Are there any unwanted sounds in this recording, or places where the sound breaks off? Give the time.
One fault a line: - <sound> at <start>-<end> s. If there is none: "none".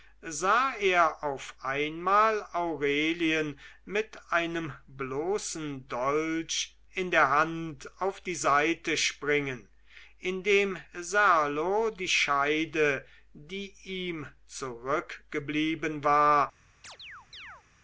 - chirp at 16.8-17.6 s